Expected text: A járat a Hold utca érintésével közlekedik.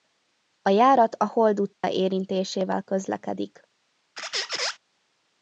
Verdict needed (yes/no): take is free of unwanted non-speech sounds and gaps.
no